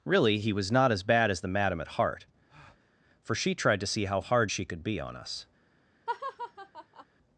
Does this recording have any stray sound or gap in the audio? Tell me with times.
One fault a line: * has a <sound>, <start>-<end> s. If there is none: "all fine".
* has a breath, 2.5-2.9 s
* has a laugh, 6.1-7.1 s